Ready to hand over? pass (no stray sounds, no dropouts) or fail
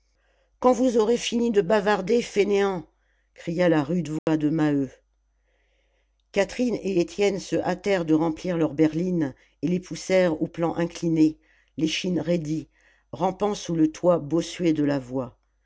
fail